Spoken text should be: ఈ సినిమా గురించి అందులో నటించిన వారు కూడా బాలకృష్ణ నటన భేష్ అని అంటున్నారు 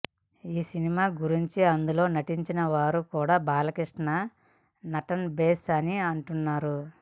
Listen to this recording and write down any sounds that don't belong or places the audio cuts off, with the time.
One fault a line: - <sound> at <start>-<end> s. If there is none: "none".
none